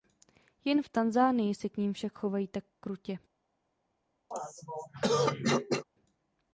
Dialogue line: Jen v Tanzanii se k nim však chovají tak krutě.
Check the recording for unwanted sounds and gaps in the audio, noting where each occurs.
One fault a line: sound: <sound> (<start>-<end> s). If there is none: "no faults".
sound: throat clearing (4.3-5.8 s)